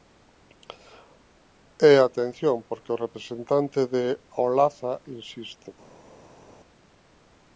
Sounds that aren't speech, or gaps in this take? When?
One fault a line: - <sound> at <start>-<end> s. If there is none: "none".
none